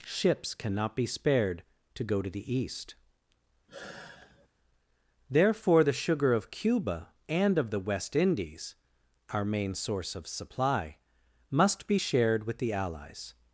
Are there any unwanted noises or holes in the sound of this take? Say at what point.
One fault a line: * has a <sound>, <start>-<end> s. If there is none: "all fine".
* has a sigh, 3.7-4.5 s